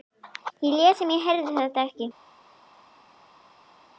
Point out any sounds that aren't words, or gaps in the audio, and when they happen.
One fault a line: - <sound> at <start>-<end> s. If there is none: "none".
none